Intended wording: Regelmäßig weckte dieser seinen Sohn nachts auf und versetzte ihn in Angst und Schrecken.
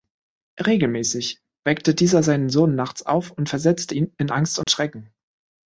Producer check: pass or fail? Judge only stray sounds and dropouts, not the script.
fail